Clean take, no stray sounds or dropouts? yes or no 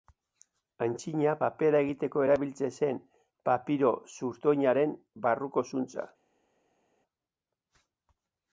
yes